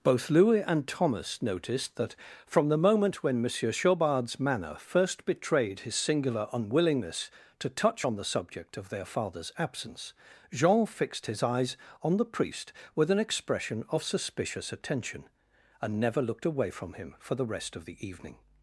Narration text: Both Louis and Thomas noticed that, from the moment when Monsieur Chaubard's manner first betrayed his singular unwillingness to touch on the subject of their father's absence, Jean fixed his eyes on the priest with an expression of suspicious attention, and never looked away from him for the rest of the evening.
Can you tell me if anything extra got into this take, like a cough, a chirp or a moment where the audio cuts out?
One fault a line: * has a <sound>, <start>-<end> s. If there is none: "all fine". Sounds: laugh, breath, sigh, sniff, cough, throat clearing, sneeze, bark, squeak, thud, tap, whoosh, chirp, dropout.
all fine